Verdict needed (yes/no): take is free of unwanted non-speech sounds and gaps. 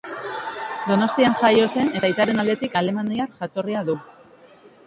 yes